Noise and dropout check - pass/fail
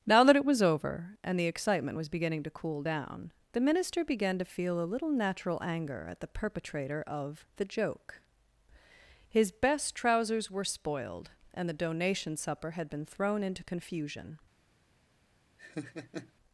fail